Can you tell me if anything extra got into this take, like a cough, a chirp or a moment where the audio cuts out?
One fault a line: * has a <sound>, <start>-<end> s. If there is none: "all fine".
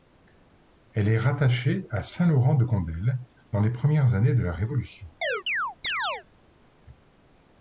* has a chirp, 5.2-6.2 s